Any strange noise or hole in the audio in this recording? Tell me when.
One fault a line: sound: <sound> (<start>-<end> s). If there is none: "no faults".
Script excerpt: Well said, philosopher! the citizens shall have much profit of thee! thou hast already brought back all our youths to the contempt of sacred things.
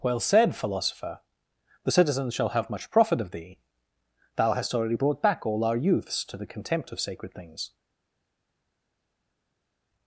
no faults